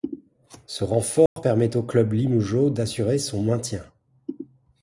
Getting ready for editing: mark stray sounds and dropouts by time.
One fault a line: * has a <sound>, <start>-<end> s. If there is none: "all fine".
* has a dropout, 1.3-1.4 s